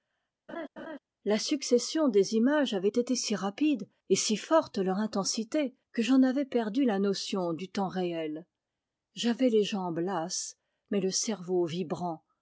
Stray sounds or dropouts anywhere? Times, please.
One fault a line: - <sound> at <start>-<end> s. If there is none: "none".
- laugh at 0.5-1.0 s